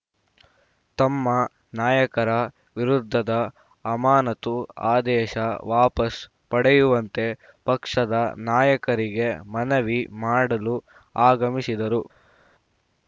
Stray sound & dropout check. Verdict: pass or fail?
pass